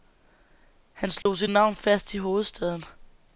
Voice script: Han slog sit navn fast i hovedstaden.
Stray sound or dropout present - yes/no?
yes